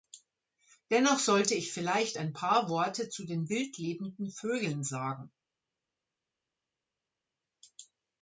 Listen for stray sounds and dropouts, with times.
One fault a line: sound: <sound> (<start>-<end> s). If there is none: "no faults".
no faults